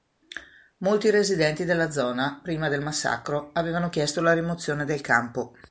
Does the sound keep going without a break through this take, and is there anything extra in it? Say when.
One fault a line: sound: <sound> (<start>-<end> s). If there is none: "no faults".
no faults